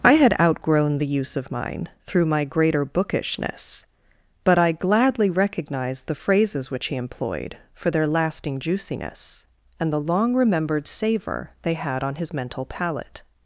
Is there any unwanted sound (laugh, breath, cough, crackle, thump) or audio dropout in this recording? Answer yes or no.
no